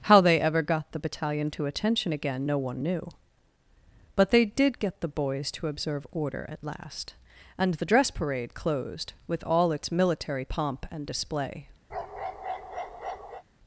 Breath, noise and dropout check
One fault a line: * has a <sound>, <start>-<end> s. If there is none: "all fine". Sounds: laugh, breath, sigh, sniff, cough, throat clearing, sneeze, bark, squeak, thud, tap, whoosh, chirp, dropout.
* has a bark, 11.9-13.4 s